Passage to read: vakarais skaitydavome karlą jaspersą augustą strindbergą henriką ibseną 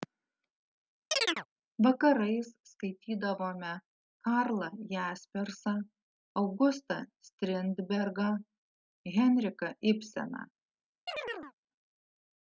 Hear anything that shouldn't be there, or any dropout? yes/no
yes